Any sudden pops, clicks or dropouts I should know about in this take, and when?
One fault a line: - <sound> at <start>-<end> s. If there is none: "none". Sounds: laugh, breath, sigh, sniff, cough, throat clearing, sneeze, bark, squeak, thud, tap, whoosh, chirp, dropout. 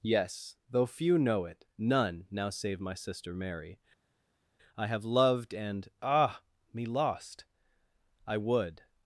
none